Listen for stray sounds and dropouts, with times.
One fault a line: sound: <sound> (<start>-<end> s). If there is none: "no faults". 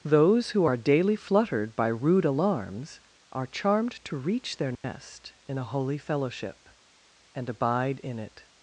sound: dropout (4.7-4.8 s)